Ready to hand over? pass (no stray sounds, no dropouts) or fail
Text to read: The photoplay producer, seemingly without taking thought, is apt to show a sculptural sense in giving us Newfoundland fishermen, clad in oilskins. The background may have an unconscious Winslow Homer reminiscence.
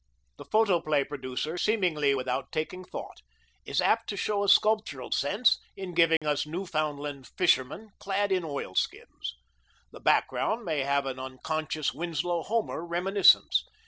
fail